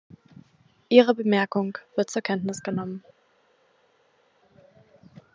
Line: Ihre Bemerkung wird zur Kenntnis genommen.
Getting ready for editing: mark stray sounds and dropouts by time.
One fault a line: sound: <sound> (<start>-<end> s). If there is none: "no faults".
no faults